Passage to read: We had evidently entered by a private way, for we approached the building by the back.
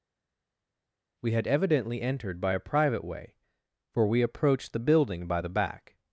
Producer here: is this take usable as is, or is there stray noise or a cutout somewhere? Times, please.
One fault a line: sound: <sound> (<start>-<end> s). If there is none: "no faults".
no faults